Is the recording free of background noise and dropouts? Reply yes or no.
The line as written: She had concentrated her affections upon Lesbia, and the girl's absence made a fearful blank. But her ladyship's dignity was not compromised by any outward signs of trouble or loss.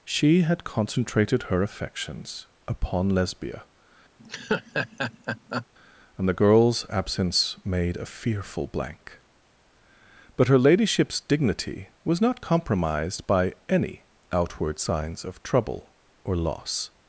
no